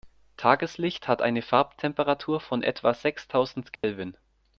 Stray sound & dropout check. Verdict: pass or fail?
fail